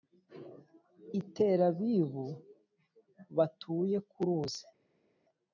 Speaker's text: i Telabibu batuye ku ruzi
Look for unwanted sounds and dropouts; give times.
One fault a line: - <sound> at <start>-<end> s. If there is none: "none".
none